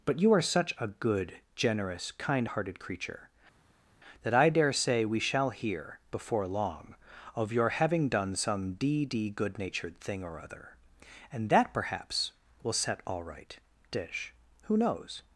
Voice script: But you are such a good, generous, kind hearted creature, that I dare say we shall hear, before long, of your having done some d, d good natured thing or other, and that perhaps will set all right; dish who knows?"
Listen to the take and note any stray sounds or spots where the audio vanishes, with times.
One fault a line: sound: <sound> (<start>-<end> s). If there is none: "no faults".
no faults